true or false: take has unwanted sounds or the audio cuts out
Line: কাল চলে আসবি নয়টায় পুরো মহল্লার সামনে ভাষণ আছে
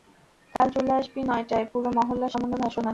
true